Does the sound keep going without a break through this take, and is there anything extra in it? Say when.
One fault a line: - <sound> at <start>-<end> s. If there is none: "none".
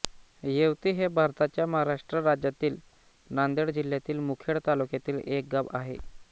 none